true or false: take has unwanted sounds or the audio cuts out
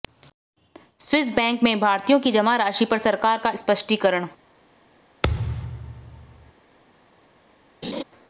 true